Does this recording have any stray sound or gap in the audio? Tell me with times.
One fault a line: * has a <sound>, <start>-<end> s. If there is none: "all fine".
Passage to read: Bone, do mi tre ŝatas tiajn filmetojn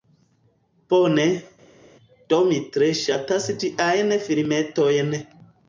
all fine